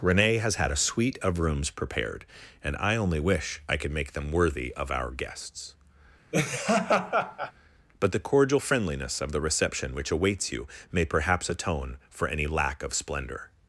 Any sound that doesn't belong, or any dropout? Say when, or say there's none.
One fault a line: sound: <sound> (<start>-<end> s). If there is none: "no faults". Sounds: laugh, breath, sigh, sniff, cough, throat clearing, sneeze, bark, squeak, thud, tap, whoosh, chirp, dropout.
sound: laugh (6.3-7.5 s)